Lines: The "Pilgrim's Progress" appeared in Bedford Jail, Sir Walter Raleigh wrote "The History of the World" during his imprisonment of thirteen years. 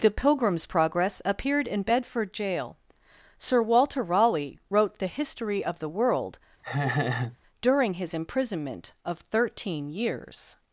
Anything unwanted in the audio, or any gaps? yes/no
yes